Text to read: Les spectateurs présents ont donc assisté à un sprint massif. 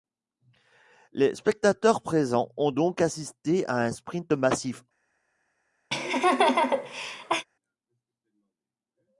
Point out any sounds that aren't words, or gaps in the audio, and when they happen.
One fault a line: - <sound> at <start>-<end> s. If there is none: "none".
- laugh at 5.9-7.5 s